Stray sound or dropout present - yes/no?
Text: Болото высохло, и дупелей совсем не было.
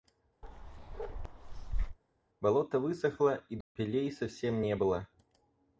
yes